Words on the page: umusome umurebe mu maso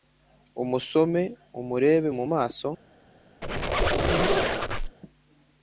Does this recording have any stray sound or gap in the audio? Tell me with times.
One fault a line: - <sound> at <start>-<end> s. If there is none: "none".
- squeak at 3.4-5.0 s